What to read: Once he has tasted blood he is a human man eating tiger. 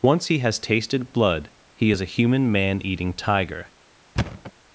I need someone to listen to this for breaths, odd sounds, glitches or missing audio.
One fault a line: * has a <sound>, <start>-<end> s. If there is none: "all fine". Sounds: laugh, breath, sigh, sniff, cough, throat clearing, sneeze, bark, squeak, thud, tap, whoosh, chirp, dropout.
* has a thud, 4.2-4.5 s